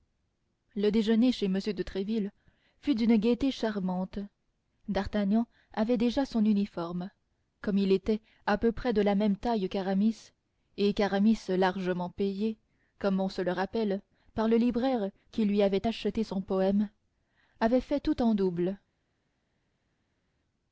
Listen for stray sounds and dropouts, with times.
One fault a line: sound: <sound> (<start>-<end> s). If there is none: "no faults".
no faults